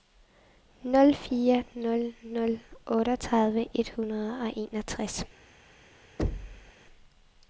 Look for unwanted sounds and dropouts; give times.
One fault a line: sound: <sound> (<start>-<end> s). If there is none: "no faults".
sound: thud (6.2-6.7 s)